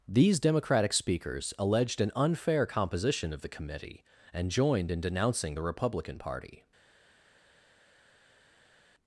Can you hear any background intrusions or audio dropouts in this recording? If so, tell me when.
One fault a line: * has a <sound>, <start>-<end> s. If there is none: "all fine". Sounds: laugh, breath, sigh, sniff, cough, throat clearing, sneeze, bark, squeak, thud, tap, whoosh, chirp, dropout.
all fine